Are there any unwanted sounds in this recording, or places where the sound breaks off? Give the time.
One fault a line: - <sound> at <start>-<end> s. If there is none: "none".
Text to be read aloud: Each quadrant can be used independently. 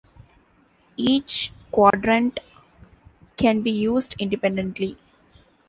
- dropout at 1.9-1.9 s